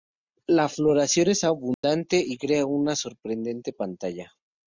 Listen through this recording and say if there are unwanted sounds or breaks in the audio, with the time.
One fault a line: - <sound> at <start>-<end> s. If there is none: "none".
- dropout at 1.7-1.8 s